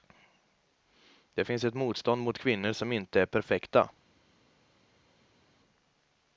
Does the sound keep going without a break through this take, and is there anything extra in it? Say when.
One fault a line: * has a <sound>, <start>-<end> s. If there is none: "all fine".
all fine